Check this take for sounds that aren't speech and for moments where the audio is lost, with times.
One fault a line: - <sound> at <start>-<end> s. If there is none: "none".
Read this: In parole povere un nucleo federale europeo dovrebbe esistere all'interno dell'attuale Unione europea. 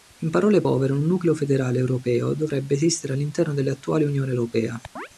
- chirp at 5.0-5.1 s